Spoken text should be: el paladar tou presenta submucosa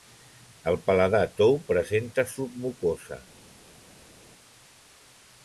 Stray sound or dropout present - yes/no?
no